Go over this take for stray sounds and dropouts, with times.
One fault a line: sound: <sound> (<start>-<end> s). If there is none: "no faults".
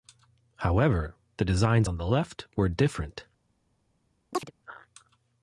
sound: chirp (4.3-4.5 s)